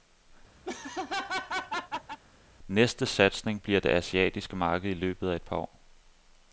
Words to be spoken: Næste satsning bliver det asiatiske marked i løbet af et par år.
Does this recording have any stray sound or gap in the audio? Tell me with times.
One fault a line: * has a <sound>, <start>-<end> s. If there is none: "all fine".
* has a laugh, 0.6-2.2 s